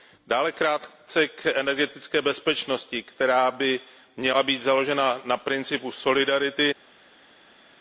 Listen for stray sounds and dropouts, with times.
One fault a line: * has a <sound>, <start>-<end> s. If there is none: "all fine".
all fine